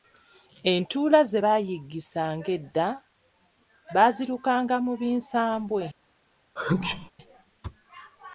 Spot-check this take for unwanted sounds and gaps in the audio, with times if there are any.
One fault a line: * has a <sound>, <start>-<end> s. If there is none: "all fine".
* has a sneeze, 6.6-7.1 s